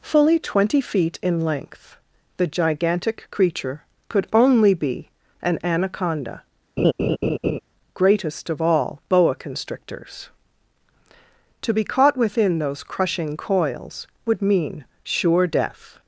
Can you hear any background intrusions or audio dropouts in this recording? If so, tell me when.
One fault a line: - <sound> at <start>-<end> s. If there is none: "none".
- laugh at 6.8-7.6 s